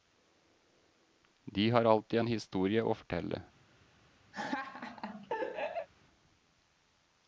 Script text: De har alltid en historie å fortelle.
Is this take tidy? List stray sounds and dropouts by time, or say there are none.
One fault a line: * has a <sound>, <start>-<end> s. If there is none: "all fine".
* has a laugh, 4.3-5.9 s